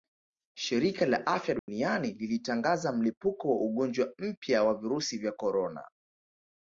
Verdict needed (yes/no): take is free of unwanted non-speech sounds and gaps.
no